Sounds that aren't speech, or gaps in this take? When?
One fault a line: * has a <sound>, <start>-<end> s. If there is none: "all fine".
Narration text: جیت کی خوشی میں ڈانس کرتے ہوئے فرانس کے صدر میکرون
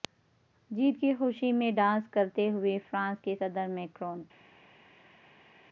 all fine